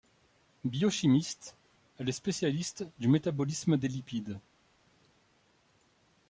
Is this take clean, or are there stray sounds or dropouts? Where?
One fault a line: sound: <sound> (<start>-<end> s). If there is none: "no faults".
no faults